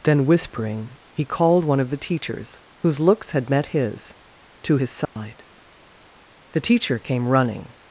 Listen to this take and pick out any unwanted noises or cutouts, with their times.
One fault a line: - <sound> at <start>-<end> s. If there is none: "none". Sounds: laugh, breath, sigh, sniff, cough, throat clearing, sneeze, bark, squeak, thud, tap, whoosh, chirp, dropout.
- dropout at 5.1-5.2 s